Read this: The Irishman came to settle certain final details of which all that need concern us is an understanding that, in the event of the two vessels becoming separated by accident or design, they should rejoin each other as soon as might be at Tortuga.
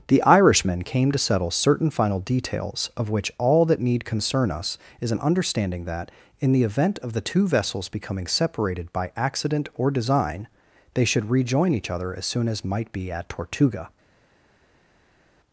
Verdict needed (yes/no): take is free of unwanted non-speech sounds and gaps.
yes